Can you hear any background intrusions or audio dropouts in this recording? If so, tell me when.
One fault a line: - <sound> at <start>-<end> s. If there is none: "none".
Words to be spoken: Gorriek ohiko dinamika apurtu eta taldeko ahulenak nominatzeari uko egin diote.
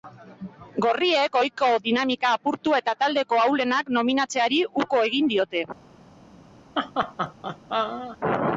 - laugh at 6.8-8.2 s